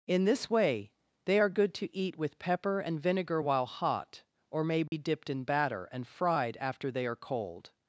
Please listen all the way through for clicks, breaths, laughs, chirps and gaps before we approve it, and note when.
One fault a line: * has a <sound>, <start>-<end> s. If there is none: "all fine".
* has a dropout, 4.9-4.9 s